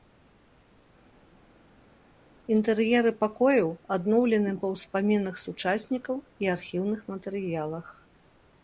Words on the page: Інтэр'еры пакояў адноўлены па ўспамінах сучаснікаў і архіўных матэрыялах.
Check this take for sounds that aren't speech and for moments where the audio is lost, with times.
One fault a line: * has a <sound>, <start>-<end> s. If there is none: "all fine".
all fine